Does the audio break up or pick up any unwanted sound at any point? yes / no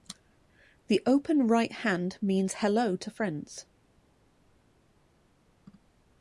no